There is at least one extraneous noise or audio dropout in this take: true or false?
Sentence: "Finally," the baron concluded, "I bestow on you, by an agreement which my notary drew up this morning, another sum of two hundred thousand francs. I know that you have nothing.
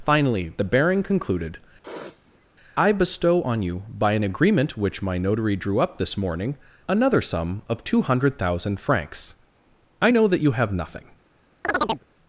true